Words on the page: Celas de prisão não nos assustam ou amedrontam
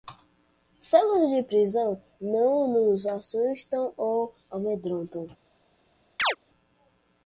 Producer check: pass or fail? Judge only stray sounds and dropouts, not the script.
fail